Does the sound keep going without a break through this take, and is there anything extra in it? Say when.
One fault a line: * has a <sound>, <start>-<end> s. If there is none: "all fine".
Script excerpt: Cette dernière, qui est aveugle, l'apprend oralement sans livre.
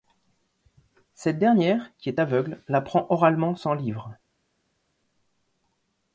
all fine